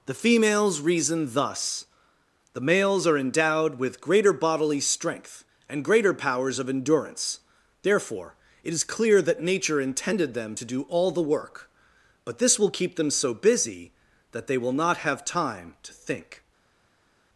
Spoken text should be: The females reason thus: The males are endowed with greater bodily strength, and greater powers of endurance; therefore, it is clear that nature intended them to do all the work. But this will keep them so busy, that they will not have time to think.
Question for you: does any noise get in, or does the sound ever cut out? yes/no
no